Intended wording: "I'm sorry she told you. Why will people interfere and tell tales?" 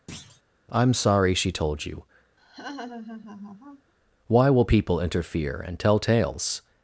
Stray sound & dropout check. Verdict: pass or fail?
fail